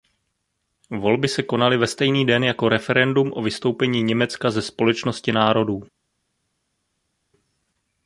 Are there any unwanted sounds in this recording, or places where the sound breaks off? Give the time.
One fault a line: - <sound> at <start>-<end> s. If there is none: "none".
none